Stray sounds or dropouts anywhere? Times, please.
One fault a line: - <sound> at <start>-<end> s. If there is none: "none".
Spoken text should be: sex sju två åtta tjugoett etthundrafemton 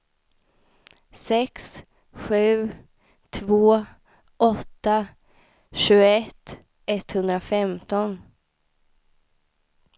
none